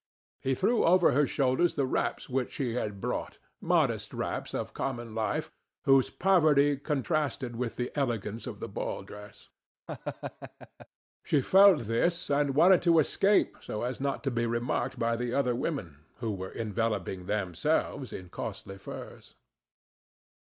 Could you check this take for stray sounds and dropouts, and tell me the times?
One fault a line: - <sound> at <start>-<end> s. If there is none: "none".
- laugh at 9.9-10.9 s